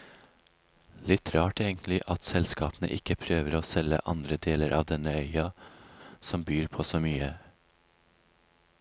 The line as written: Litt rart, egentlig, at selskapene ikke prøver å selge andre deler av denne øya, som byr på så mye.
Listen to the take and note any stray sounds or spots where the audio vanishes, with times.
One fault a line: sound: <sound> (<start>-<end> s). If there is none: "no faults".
no faults